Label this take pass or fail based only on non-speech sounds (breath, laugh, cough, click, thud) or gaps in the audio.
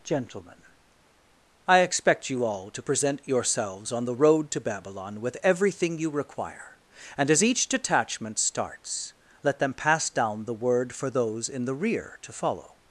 pass